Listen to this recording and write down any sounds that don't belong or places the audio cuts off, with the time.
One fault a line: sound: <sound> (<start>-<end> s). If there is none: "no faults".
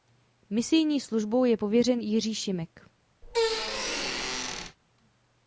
sound: squeak (3.2-4.8 s)